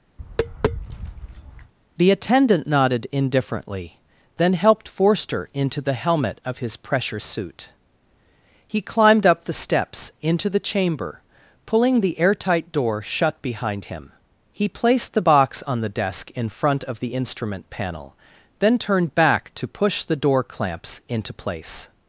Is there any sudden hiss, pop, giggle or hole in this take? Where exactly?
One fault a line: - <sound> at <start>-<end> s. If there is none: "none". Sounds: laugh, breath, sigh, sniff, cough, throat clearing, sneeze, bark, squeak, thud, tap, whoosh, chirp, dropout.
- tap at 0.2-1.7 s